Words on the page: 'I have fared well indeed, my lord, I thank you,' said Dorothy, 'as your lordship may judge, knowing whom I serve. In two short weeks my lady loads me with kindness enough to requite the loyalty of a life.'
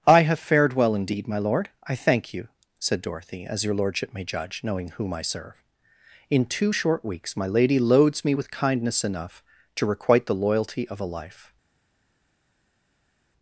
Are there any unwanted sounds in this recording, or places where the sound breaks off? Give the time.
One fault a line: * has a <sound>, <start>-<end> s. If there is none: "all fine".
all fine